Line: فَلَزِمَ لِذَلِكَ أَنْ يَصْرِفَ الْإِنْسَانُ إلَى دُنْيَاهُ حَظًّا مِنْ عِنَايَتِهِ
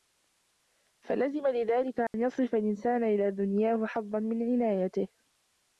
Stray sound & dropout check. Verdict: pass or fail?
fail